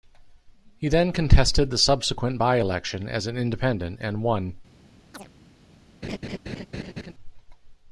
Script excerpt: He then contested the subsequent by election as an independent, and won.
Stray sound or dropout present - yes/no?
yes